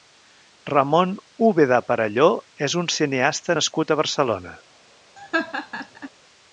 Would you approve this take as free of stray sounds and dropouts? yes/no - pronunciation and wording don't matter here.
no